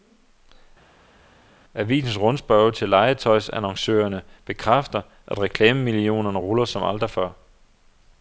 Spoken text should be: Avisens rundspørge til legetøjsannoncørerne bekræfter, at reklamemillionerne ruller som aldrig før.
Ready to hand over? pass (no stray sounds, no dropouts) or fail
pass